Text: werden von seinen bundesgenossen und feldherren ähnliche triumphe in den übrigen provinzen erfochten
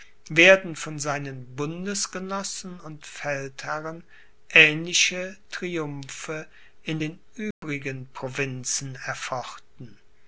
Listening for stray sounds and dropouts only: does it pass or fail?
fail